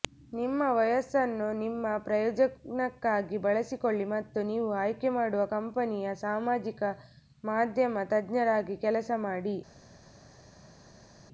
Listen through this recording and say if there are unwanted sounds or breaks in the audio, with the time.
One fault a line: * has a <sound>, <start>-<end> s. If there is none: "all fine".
all fine